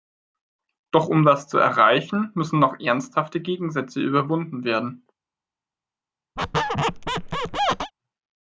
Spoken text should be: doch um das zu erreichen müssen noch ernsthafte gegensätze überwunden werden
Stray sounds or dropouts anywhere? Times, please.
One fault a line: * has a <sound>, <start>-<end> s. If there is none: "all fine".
* has a squeak, 6.4-7.9 s